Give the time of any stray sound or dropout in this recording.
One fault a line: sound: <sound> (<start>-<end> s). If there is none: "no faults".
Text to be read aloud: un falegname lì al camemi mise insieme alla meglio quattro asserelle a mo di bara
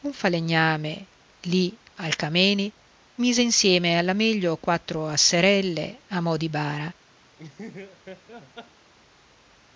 sound: laugh (7.4-8.9 s)